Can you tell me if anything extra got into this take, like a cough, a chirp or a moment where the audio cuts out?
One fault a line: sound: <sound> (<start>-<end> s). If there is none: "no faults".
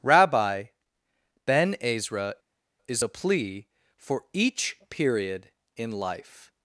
no faults